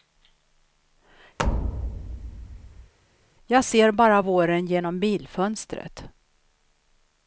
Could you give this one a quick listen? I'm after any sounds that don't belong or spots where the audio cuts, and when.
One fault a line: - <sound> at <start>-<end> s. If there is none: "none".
- thud at 1.4-2.9 s